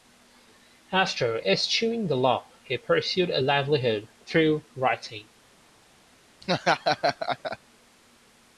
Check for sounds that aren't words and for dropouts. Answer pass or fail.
fail